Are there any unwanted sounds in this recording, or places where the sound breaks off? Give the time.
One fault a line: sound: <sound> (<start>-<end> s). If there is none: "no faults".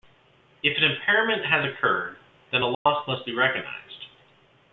sound: dropout (2.7-2.9 s)